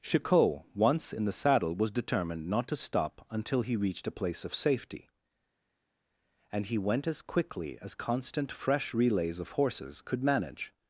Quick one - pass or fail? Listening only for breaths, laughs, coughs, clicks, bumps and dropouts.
pass